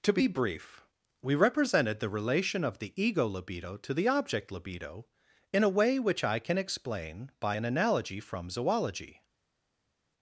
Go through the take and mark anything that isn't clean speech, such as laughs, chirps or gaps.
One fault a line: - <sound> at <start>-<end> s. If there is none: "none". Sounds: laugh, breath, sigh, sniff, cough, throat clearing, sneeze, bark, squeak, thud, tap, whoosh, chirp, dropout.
none